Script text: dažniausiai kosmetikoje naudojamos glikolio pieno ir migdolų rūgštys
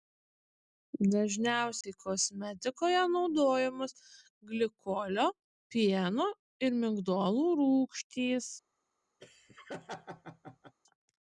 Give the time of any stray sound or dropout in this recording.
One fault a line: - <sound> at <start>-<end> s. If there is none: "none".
- dropout at 1.8-1.8 s
- laugh at 9.2-10.7 s